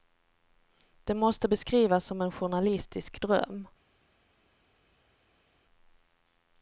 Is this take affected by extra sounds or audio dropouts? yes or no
no